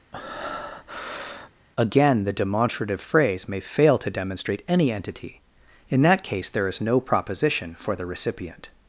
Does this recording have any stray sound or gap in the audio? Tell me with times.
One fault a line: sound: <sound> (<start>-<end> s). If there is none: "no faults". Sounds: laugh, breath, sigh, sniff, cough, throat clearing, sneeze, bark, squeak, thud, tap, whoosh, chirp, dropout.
sound: breath (0.1-1.5 s)